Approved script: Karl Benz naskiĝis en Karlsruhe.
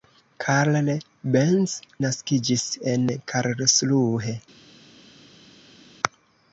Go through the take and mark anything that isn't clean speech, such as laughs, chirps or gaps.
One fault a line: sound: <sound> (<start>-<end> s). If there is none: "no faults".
no faults